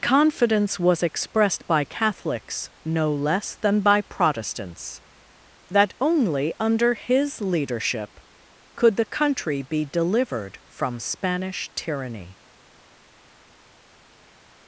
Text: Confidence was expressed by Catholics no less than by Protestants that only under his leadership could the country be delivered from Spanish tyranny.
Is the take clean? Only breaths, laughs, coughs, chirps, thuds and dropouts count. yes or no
yes